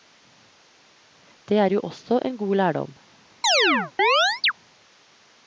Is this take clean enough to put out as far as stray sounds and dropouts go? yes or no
no